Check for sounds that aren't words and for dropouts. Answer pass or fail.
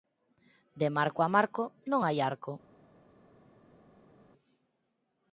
pass